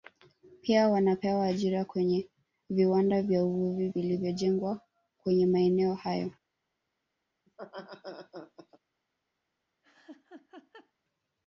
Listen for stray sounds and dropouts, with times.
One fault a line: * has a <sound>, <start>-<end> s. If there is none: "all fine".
* has a laugh, 7.5-8.8 s
* has a laugh, 9.8-10.9 s